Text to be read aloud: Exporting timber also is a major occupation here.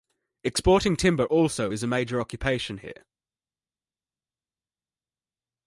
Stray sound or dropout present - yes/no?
no